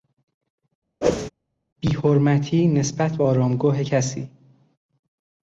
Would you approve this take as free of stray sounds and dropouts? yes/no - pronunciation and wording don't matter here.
no